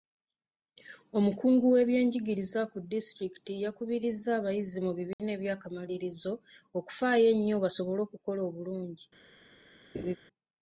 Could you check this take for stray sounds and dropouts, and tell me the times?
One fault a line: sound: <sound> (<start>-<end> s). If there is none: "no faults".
sound: dropout (5.1-5.2 s)
sound: laugh (9.9-10.2 s)